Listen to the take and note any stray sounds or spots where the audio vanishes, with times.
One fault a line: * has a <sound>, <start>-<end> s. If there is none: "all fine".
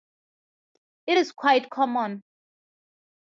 all fine